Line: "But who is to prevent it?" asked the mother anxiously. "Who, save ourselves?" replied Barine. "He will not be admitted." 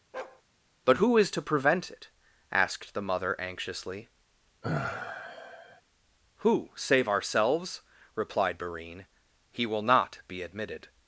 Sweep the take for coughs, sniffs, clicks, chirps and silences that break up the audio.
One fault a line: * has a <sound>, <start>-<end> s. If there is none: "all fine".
* has a bark, 0.1-0.4 s
* has a sigh, 4.6-5.8 s